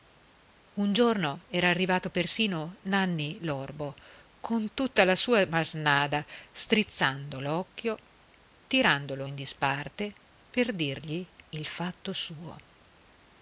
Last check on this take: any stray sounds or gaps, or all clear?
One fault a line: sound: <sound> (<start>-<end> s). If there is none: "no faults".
no faults